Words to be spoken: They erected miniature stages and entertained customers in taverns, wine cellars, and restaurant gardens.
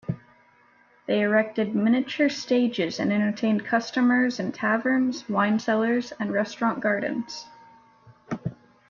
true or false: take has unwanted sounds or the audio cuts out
false